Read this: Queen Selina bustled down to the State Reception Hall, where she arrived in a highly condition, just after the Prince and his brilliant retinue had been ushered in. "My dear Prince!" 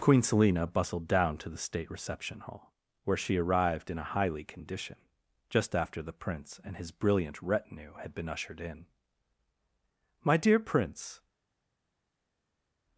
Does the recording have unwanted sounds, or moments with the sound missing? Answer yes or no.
no